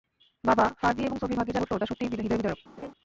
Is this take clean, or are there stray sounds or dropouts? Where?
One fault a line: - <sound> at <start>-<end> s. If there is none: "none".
- laugh at 2.8-2.9 s